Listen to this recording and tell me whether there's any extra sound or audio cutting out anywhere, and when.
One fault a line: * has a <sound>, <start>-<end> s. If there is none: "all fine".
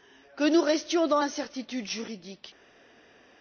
all fine